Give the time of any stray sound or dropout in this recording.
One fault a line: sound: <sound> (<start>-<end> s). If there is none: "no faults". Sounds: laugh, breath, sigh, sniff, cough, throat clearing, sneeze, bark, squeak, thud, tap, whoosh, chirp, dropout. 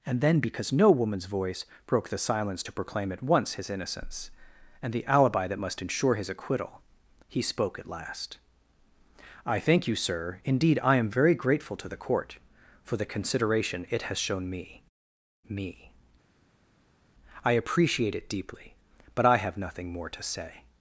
no faults